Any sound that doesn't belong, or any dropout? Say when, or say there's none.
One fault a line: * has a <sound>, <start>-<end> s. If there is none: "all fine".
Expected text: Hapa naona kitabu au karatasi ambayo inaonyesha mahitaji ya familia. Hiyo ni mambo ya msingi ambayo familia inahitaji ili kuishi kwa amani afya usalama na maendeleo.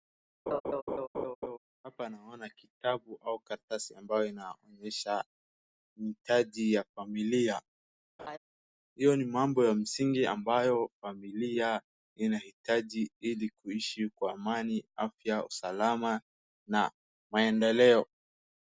* has a laugh, 0.5-1.6 s
* has a laugh, 8.2-8.4 s